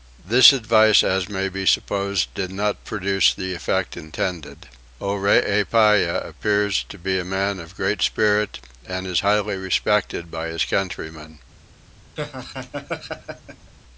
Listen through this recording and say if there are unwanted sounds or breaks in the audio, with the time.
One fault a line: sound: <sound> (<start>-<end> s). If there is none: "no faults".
sound: laugh (12.2-13.7 s)